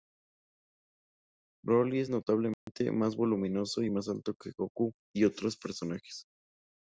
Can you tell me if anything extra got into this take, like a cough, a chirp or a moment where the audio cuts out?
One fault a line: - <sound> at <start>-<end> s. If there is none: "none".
- dropout at 2.5-2.7 s